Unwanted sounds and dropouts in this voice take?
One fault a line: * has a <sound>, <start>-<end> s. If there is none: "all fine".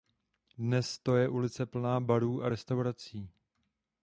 all fine